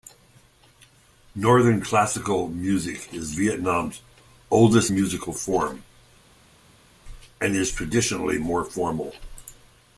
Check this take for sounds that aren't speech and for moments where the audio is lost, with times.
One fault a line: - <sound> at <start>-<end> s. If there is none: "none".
none